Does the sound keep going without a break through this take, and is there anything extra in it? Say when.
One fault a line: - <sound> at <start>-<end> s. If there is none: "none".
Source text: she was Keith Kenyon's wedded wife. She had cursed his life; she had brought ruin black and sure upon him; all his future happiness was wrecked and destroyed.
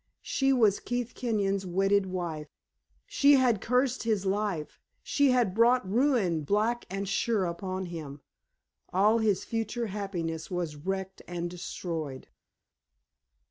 none